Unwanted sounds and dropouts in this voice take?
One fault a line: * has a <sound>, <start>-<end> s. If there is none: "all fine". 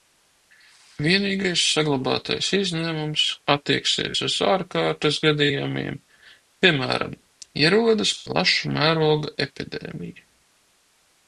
all fine